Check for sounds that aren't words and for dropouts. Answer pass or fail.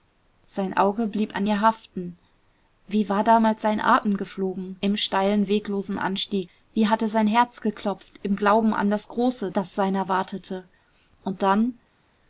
pass